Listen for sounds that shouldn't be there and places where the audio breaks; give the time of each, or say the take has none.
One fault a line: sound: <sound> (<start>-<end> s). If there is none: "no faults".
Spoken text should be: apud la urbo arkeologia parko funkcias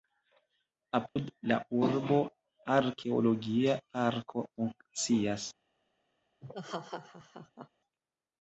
sound: dropout (1.1-1.2 s)
sound: laugh (6.4-7.7 s)